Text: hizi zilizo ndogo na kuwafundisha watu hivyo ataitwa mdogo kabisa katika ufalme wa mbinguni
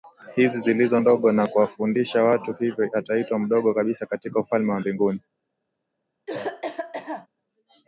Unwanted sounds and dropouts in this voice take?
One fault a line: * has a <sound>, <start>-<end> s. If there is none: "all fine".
* has a cough, 6.3-7.3 s